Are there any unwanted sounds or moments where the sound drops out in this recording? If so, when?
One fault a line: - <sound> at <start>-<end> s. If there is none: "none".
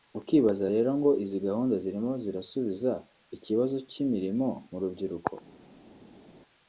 none